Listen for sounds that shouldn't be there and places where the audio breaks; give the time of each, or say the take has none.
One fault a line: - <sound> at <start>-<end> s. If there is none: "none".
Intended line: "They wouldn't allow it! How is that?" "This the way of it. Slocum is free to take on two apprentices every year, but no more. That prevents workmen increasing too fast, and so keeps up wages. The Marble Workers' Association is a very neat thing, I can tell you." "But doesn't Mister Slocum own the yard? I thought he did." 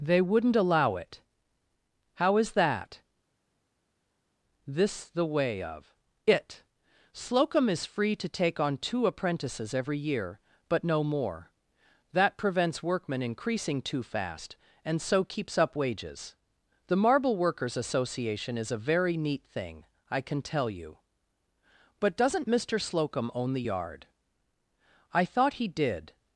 none